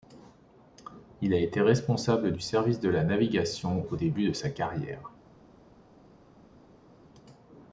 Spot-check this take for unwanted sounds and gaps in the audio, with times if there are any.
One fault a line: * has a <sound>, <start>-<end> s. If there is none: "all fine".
all fine